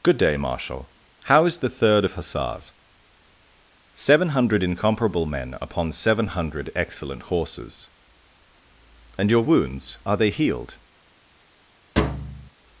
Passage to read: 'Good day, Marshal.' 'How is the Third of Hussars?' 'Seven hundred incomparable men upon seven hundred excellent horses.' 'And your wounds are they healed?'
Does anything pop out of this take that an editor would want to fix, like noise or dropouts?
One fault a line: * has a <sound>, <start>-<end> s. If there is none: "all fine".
* has a thud, 12.0-12.5 s